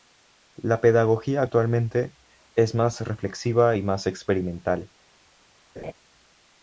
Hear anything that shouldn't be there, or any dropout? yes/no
yes